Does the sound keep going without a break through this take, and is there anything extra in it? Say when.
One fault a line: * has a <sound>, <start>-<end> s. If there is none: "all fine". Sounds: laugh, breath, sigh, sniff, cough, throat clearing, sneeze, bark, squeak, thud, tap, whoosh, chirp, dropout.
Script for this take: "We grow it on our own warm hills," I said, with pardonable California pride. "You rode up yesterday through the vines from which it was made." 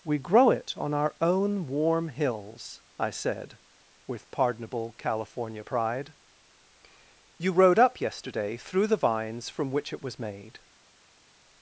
all fine